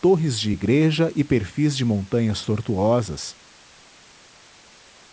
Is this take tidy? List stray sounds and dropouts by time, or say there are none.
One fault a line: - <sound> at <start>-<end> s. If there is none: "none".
none